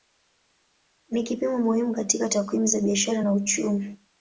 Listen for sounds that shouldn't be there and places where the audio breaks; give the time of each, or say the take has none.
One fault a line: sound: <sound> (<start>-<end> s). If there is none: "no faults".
no faults